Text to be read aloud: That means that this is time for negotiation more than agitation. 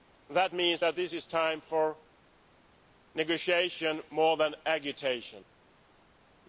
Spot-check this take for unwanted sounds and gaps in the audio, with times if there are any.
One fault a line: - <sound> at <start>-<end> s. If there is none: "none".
none